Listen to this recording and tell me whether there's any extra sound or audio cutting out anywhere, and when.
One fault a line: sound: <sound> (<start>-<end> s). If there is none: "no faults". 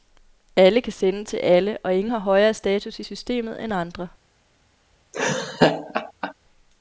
sound: laugh (5.1-6.3 s)